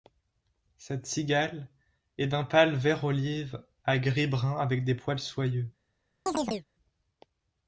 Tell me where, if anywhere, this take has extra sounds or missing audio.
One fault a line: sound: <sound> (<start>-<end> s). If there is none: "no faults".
sound: chirp (6.3-6.7 s)